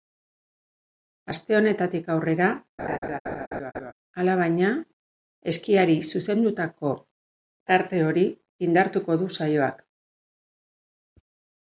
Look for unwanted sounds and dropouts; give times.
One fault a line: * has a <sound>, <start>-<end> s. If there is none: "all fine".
* has a laugh, 2.8-3.9 s